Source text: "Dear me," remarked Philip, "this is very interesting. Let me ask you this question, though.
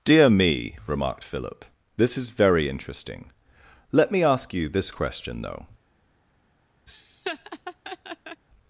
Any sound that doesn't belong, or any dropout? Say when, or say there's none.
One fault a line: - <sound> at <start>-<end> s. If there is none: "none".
- laugh at 6.9-8.4 s